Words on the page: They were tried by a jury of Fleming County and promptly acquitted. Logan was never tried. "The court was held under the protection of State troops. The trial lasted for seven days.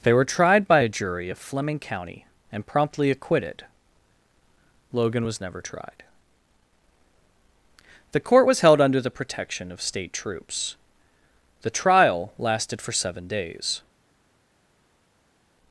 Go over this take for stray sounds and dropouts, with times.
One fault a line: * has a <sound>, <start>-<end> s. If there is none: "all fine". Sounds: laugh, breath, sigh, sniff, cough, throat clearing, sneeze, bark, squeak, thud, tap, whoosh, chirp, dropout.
all fine